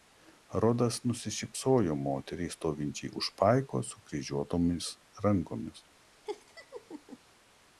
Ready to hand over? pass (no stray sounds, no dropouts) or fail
fail